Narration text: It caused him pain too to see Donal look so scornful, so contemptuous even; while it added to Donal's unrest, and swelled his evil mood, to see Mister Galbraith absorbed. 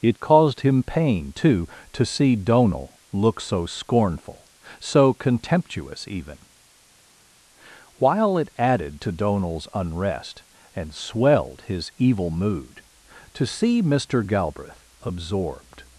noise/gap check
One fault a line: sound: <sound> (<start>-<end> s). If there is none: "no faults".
no faults